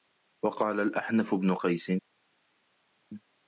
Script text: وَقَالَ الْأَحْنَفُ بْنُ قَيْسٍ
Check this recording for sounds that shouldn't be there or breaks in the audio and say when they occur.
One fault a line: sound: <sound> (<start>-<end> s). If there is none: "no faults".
no faults